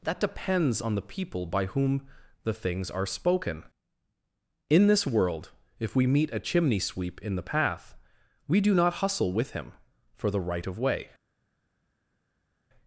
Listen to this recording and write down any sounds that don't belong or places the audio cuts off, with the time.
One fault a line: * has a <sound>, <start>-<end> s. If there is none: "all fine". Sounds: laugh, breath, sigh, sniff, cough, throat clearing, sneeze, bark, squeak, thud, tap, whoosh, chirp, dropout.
all fine